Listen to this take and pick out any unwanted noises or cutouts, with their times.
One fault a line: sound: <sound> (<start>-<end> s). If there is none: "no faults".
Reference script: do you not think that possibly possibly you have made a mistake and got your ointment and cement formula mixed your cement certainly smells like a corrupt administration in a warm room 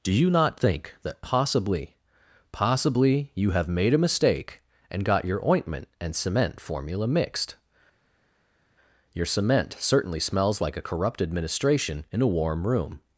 no faults